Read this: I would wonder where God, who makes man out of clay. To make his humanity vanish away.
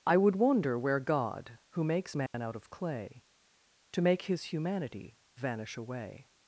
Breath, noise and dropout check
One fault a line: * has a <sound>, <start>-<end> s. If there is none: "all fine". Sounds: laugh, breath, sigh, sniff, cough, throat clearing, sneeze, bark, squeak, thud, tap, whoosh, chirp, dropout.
* has a dropout, 2.3-2.3 s